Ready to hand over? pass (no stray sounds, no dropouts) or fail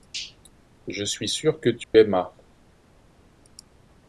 fail